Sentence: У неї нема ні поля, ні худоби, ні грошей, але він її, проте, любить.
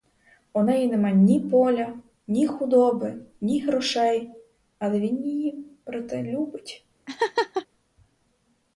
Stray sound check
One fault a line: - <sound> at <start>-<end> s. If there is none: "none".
- laugh at 7.1-7.7 s